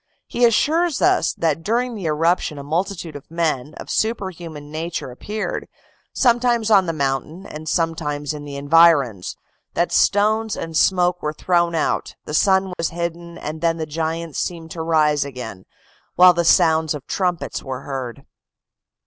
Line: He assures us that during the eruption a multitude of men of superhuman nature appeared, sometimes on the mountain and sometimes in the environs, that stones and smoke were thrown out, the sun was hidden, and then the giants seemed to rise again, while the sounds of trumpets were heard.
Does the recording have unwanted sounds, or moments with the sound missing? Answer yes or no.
yes